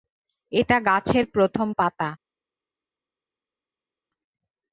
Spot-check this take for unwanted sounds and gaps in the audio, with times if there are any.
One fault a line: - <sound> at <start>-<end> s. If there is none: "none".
none